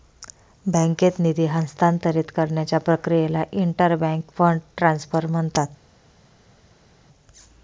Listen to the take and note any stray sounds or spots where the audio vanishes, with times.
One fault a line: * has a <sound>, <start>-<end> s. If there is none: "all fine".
all fine